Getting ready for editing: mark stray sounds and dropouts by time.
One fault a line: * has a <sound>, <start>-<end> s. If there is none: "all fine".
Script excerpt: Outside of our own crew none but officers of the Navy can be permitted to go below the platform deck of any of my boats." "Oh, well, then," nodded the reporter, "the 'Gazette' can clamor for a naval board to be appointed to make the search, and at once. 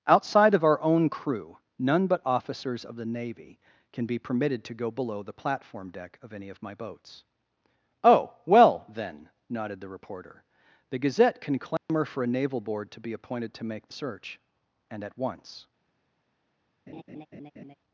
* has a dropout, 11.8-11.9 s
* has a laugh, 16.9-17.7 s